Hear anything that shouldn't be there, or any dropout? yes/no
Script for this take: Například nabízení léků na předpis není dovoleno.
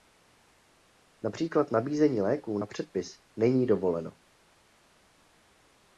no